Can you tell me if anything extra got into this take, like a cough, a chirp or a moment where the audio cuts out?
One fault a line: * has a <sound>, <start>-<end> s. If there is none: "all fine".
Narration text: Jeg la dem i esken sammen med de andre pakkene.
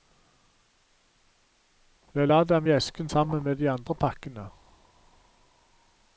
all fine